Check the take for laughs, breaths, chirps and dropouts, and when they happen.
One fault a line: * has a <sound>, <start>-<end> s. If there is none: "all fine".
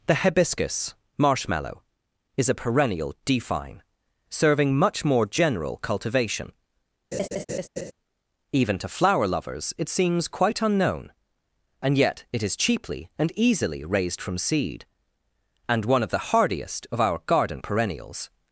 * has a laugh, 7.1-7.9 s